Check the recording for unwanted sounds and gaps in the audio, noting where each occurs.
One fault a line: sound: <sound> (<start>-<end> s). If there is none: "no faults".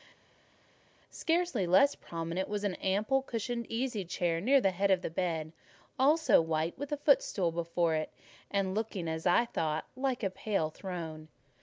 no faults